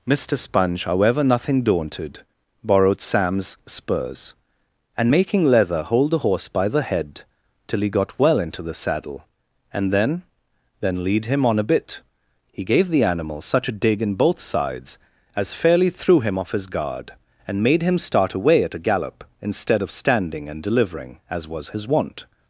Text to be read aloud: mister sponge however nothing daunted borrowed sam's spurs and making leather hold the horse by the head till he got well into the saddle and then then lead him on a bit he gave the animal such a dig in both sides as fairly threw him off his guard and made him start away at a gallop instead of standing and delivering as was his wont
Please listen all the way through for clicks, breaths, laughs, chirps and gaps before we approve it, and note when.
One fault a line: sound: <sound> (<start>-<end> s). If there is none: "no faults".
no faults